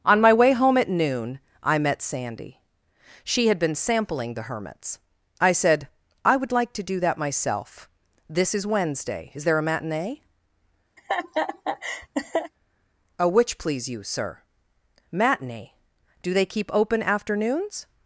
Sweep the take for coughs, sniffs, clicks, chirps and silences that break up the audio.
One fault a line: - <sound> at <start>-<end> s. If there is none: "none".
- laugh at 11.0-12.5 s